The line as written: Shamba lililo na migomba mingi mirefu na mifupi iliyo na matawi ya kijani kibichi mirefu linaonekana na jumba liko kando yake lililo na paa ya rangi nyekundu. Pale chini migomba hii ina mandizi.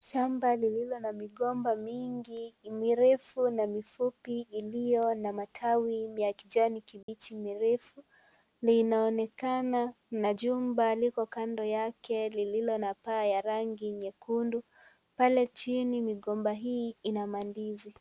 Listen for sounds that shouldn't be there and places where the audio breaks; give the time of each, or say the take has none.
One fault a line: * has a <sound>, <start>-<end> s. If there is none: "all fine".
* has a dropout, 7.0-7.1 s